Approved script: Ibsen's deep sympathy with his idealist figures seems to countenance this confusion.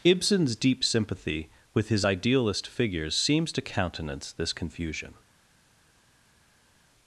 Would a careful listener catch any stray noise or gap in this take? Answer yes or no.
no